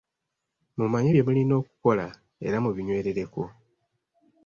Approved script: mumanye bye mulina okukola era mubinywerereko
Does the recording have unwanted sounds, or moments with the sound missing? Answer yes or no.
no